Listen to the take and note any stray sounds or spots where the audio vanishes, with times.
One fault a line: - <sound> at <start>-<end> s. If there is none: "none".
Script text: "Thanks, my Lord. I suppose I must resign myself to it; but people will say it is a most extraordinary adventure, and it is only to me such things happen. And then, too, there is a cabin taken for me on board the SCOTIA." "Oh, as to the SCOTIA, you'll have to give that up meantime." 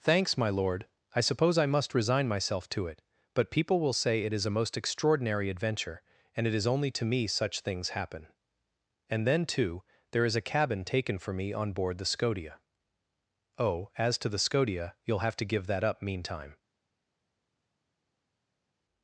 none